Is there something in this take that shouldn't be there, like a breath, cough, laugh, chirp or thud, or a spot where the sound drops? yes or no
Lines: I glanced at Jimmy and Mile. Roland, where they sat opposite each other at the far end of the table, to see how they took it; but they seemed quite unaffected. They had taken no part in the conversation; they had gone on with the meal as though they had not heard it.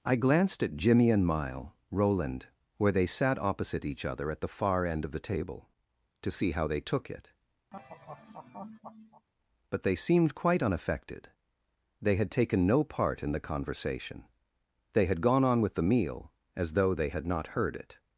yes